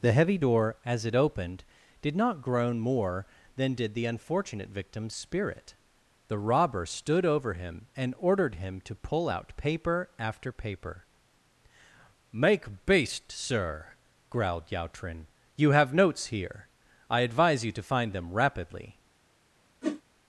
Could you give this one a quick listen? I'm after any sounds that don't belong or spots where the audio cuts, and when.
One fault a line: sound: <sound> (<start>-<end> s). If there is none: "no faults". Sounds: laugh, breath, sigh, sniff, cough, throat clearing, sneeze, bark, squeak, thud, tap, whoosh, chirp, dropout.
sound: whoosh (19.8-20.0 s)